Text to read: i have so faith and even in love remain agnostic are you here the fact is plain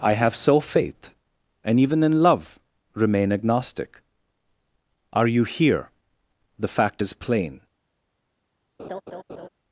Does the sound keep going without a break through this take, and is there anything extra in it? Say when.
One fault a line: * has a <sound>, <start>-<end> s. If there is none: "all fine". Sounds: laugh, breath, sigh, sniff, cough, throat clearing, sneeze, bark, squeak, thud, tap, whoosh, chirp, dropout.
* has a laugh, 8.8-9.5 s